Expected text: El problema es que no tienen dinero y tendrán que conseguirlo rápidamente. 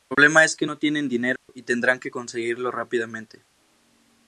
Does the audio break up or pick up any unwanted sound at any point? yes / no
yes